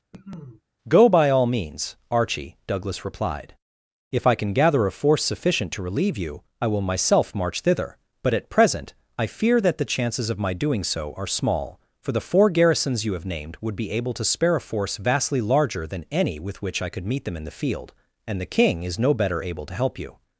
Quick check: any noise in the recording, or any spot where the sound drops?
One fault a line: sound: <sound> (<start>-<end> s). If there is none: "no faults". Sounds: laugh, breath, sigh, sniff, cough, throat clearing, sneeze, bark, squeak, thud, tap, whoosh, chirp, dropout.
sound: cough (0.1-0.6 s)